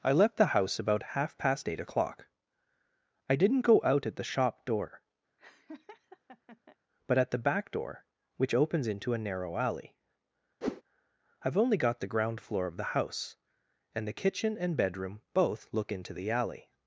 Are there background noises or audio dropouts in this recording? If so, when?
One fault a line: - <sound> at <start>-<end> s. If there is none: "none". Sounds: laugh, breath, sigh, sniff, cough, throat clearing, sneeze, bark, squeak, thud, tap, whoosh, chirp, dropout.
- laugh at 5.4-6.8 s
- whoosh at 10.6-10.8 s